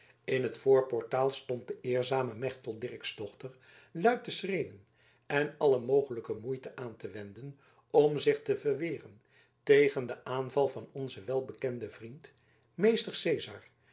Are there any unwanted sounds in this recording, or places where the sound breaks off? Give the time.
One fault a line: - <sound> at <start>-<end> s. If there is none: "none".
none